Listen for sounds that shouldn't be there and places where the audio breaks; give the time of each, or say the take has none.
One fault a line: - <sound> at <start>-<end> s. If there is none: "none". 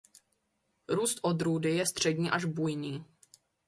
none